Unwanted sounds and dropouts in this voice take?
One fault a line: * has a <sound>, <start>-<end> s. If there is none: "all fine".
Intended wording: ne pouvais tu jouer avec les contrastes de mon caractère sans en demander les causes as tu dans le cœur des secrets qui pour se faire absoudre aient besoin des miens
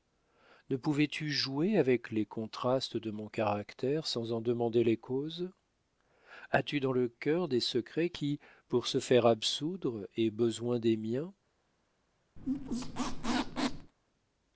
* has a squeak, 12.4-13.9 s